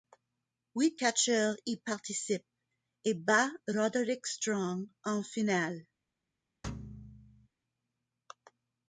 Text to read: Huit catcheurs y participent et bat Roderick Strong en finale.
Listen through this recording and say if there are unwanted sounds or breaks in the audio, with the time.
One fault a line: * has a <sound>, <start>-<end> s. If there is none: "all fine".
* has a thud, 6.6-7.5 s